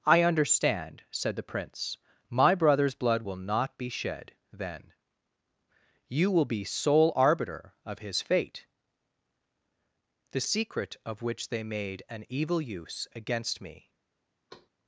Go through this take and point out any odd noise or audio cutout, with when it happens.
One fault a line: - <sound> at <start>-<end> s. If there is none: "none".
- thud at 14.5-14.7 s